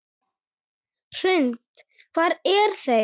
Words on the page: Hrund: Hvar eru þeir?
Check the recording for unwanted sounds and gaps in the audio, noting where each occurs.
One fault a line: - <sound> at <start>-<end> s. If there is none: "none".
none